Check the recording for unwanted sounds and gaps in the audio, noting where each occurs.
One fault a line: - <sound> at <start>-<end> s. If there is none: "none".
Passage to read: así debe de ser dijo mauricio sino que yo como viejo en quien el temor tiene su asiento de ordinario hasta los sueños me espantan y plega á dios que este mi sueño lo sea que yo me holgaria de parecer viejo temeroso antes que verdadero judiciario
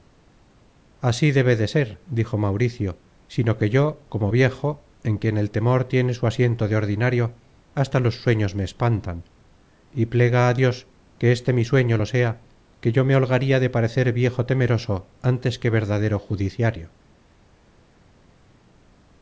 none